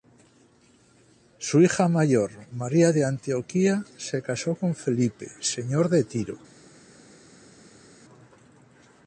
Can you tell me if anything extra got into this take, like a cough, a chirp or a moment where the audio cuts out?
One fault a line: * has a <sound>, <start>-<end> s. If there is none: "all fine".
all fine